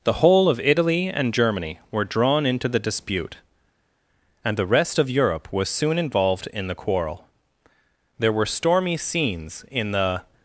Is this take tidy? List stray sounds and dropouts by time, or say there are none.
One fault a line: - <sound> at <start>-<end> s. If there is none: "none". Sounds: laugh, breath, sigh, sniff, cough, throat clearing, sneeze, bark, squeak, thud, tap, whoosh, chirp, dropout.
none